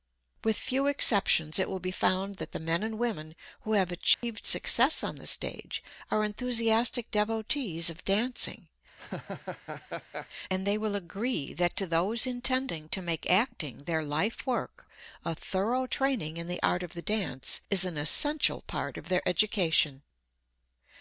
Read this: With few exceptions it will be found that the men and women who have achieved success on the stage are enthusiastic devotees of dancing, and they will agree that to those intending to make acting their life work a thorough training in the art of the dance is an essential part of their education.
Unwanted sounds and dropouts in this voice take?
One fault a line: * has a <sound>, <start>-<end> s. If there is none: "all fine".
* has a dropout, 4.1-4.2 s
* has a laugh, 9.0-10.3 s